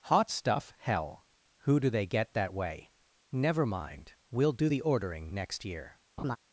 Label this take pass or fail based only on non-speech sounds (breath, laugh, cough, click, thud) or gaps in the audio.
fail